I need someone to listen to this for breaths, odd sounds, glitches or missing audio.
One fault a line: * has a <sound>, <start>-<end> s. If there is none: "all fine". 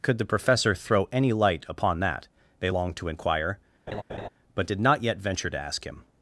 * has a laugh, 3.9-4.3 s